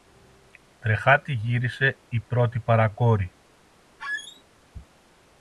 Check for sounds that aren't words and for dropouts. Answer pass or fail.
fail